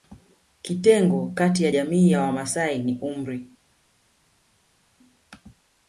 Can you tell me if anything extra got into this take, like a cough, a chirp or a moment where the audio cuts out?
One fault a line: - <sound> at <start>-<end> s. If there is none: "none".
none